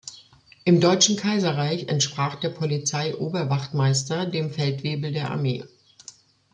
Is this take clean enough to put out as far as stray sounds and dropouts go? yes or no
yes